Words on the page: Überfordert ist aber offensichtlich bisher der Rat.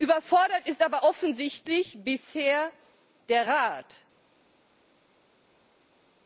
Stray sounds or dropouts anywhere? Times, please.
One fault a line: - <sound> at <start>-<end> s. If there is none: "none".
none